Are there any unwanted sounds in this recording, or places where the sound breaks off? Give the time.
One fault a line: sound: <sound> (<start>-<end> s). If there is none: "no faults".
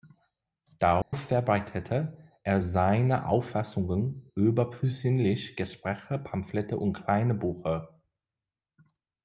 sound: dropout (1.0-1.1 s)